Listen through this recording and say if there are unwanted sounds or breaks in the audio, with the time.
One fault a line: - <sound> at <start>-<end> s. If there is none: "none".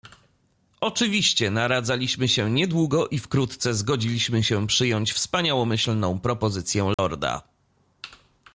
- dropout at 6.9-7.0 s